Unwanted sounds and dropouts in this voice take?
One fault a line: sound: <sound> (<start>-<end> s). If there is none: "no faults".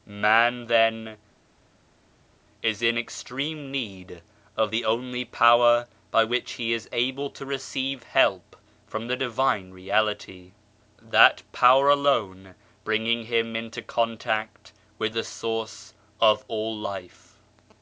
no faults